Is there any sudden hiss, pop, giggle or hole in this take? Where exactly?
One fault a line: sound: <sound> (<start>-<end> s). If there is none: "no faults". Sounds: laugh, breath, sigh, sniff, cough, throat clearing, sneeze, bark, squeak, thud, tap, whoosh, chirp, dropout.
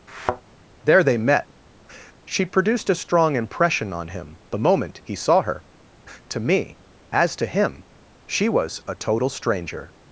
sound: thud (0.1-0.4 s)